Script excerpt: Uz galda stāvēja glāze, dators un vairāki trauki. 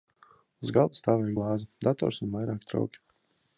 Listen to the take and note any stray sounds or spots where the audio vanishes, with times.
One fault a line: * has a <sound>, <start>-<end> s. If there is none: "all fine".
all fine